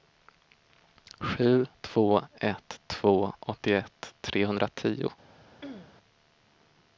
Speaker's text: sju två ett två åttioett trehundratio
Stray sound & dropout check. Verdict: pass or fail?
fail